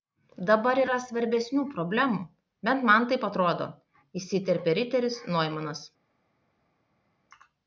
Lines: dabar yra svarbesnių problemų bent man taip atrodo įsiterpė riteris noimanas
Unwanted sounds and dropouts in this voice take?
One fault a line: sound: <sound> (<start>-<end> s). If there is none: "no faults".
no faults